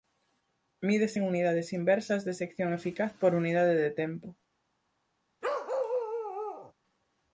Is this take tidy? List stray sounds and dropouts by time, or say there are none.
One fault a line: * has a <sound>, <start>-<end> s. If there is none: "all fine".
* has a bark, 5.4-6.7 s